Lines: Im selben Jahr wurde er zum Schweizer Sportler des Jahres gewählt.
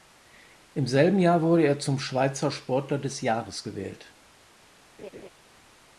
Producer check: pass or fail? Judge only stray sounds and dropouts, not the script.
fail